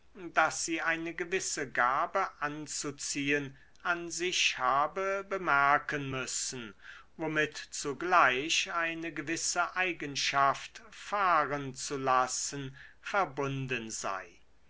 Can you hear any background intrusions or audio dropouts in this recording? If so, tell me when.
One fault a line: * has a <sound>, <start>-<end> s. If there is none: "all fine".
all fine